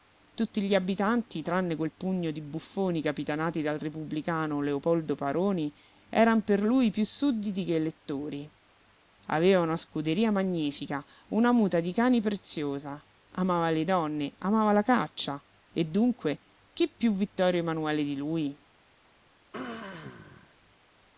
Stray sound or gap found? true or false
true